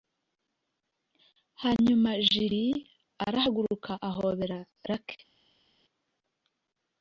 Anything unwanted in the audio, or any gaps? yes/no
no